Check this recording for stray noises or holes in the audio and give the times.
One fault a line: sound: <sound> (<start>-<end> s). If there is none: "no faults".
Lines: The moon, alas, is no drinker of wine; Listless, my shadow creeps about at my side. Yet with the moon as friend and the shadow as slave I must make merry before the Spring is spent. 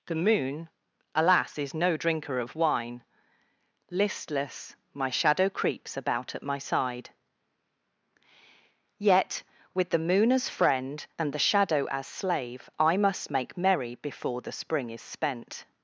no faults